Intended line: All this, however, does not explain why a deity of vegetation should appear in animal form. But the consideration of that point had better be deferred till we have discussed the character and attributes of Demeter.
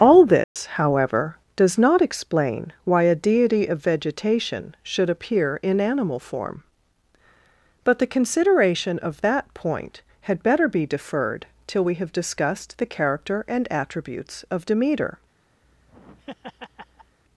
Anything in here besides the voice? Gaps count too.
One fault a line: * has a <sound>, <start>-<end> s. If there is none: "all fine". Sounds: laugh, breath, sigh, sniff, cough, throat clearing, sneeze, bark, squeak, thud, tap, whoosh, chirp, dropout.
* has a dropout, 0.4-0.6 s
* has a laugh, 15.6-17.2 s